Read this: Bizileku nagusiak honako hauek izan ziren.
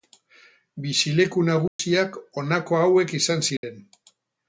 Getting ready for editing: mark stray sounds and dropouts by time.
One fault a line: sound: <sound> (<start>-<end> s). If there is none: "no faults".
sound: dropout (1.7-1.8 s)
sound: dropout (3.6-3.6 s)